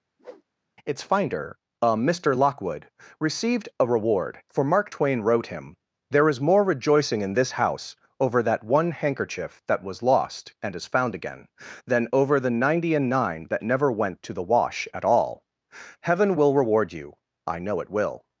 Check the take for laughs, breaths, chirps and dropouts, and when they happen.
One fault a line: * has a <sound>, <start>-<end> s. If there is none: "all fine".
* has a whoosh, 0.2-0.4 s